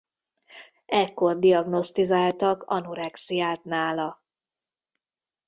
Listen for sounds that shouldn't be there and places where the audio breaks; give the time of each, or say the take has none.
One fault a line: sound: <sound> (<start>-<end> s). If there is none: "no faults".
no faults